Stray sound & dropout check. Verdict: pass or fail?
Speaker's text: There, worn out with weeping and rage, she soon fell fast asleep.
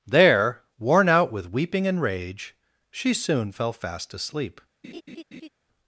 fail